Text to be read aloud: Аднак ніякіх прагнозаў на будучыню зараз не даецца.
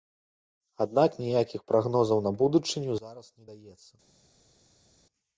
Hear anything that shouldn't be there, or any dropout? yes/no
no